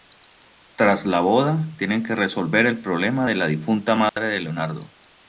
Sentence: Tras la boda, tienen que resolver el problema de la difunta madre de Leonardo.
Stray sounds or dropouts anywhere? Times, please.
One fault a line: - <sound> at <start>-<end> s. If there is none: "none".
- dropout at 4.1-4.2 s